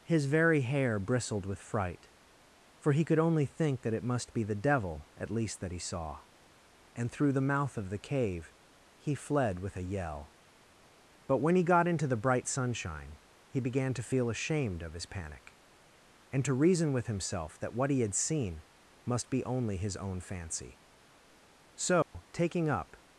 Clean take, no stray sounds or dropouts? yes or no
no